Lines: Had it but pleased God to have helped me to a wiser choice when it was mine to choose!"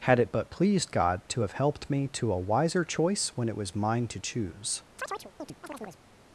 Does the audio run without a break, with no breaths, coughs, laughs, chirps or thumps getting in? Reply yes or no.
no